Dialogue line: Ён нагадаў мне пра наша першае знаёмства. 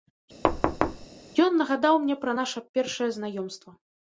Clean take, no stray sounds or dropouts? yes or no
no